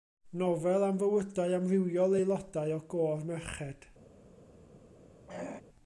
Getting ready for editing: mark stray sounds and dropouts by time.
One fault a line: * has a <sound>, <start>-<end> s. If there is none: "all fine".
* has a throat clearing, 5.3-5.6 s